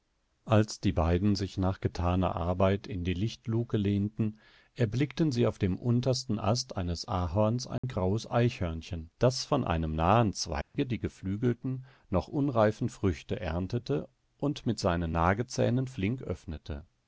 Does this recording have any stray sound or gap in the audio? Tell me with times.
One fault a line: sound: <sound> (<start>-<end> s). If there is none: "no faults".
sound: dropout (7.8-7.8 s)
sound: dropout (10.6-10.7 s)